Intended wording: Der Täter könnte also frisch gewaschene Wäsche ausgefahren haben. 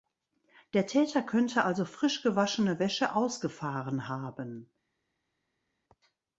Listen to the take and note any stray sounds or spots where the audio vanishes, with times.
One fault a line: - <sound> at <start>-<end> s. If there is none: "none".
none